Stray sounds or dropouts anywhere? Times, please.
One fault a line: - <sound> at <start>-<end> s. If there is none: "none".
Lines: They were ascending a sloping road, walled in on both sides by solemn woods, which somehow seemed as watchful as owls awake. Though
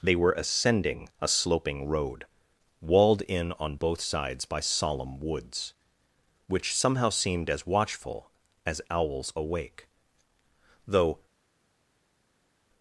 none